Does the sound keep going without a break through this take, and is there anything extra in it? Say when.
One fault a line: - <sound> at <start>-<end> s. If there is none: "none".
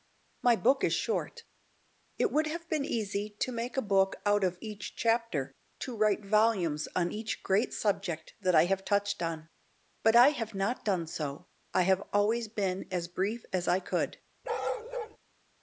- bark at 14.4-15.2 s